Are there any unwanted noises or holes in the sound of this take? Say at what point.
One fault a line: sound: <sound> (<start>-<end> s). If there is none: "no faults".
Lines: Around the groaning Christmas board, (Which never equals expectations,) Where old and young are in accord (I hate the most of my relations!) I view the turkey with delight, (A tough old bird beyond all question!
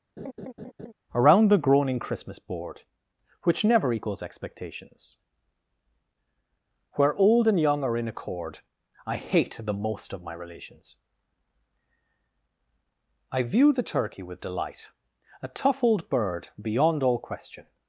sound: laugh (0.2-0.9 s)